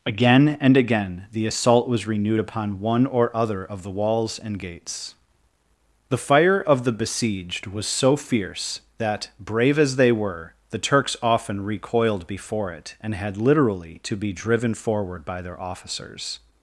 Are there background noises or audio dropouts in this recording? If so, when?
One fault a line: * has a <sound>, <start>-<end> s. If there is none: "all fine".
all fine